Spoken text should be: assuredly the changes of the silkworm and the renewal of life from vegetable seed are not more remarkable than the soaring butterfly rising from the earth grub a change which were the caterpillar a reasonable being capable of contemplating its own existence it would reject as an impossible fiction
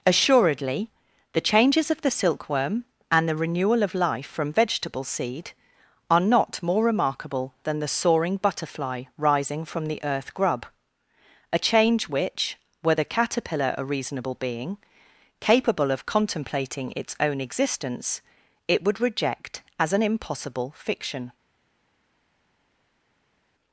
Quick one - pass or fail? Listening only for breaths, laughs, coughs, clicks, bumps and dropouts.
pass